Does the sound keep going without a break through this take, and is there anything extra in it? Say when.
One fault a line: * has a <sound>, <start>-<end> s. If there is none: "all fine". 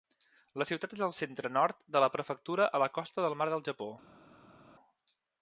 all fine